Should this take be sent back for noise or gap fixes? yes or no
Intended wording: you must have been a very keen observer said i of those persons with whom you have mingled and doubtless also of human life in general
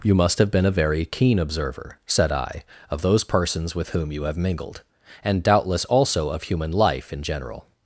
no